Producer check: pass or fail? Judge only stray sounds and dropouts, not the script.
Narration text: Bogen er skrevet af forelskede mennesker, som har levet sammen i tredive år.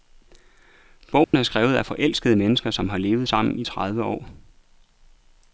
fail